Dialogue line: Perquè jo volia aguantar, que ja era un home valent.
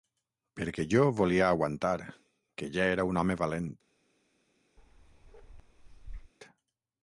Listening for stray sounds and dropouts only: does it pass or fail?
fail